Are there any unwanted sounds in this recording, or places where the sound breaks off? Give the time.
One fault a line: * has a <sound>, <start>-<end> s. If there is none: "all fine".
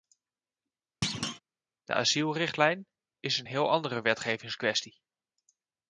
* has a thud, 1.0-1.4 s